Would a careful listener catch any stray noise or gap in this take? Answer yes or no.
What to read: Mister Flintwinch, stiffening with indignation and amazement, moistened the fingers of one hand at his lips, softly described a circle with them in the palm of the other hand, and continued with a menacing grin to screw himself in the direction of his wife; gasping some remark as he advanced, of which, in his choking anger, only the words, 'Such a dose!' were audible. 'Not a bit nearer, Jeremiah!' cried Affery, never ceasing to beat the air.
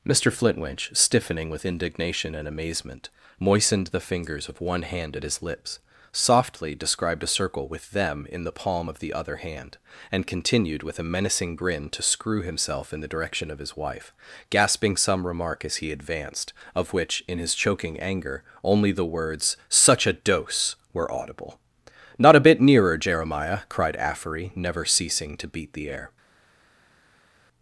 no